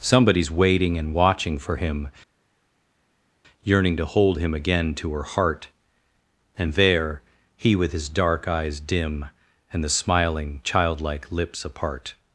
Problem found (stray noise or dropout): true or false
false